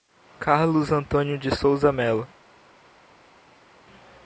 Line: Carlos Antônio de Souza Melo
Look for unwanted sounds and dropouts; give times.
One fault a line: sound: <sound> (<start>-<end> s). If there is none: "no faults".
no faults